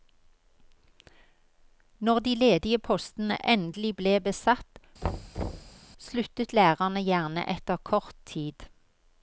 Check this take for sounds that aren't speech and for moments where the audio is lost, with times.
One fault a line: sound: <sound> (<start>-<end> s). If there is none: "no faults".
sound: thud (5.0-5.8 s)